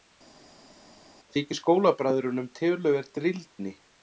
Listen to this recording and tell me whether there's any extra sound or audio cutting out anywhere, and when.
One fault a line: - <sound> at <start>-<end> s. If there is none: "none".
none